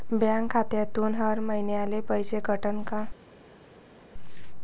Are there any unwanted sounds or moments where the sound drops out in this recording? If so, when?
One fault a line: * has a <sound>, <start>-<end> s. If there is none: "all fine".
all fine